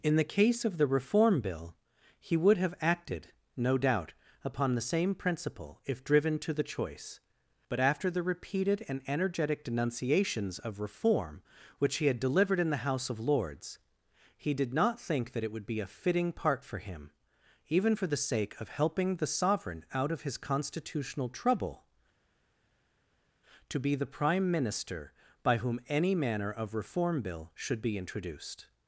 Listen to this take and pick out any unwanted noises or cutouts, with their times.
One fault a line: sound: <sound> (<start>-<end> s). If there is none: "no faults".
no faults